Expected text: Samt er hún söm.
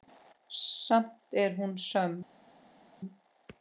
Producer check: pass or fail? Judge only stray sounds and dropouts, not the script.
pass